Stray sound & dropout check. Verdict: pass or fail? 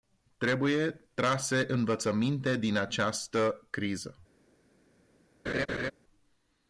fail